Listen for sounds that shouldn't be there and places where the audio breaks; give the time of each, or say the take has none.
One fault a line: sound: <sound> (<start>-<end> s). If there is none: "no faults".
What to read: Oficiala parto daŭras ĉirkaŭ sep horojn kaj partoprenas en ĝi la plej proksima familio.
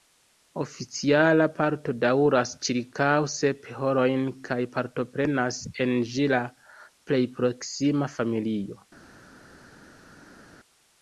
no faults